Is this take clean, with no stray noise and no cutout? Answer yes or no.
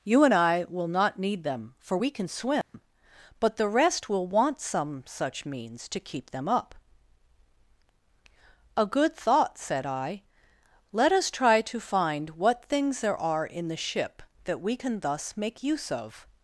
no